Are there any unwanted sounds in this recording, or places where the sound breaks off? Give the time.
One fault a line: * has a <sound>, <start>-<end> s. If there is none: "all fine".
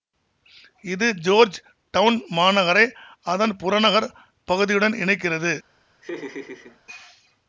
* has a laugh, 6.0-6.8 s